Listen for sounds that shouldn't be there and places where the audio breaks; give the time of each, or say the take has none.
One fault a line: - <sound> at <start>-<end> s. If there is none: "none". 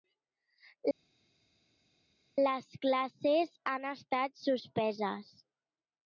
none